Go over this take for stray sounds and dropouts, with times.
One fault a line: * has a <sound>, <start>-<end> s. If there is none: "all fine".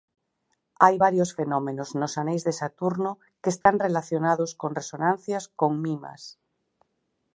* has a dropout, 3.6-3.7 s